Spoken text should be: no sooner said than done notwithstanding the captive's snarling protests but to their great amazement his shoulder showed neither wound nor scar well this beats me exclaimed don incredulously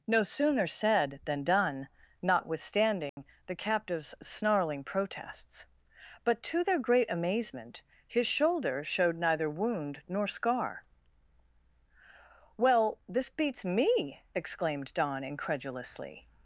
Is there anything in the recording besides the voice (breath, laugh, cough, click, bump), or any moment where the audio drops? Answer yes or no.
yes